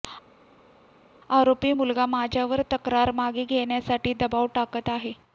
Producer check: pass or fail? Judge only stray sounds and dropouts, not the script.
pass